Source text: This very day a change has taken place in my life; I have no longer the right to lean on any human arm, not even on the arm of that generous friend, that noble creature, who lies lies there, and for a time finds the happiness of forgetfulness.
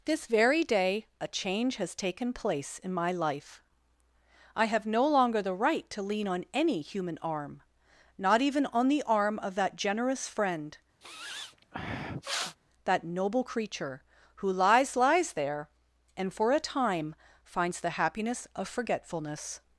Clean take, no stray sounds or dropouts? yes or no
no